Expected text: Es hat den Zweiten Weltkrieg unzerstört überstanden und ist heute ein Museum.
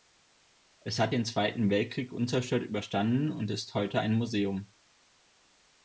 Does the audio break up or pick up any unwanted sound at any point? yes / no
no